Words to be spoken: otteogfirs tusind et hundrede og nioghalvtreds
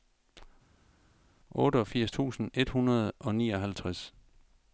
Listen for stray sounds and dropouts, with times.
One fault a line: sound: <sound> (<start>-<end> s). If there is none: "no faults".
no faults